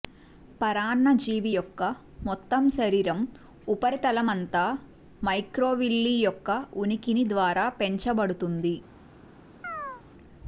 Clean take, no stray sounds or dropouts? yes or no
no